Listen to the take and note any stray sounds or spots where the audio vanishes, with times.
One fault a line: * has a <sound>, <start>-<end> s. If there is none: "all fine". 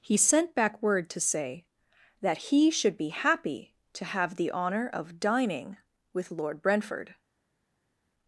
all fine